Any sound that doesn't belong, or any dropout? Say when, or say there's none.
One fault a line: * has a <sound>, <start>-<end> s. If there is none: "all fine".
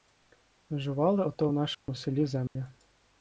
* has a dropout, 1.7-1.9 s
* has a dropout, 2.5-2.6 s